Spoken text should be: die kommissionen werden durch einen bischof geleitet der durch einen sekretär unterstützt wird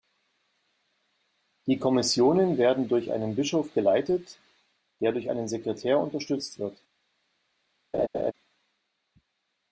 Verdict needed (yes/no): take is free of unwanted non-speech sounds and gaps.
no